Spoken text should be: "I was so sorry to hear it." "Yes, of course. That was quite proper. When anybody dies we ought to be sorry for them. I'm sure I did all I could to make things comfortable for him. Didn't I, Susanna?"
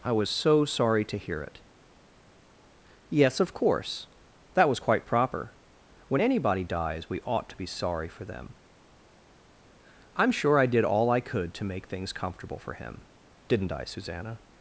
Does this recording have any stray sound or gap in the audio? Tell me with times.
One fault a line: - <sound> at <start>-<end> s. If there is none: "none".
none